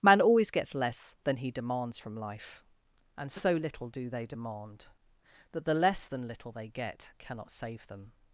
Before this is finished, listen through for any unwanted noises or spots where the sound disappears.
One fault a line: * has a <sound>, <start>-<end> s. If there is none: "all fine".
all fine